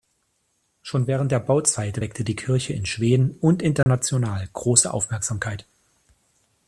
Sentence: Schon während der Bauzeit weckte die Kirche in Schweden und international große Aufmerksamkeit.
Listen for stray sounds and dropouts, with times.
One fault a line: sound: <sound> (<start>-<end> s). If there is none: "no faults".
sound: dropout (3.8-3.9 s)